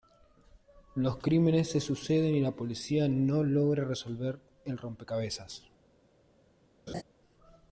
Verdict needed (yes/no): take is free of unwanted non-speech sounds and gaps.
no